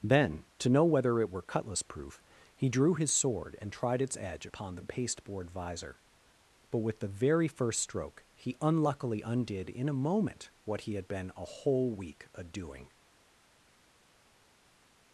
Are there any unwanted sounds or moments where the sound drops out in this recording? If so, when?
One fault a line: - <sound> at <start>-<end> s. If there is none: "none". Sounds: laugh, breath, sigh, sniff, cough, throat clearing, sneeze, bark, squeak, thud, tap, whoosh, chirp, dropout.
none